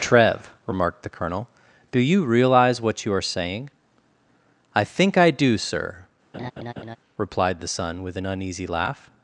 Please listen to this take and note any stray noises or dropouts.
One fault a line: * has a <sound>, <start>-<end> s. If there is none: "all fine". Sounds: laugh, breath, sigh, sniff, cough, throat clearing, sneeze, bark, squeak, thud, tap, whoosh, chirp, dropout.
* has a laugh, 6.3-7.0 s